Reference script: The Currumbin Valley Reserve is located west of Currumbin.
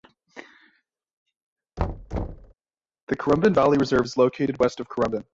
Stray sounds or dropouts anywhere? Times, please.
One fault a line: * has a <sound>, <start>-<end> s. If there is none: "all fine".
* has a thud, 1.8-2.5 s